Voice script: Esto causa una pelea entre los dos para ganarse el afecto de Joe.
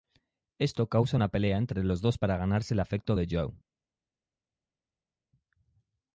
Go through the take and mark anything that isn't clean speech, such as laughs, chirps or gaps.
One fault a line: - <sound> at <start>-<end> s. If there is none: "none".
none